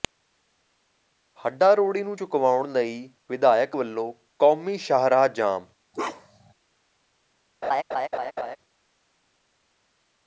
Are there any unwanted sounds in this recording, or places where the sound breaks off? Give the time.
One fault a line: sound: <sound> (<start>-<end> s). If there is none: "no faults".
sound: bark (5.9-6.5 s)
sound: laugh (7.6-8.6 s)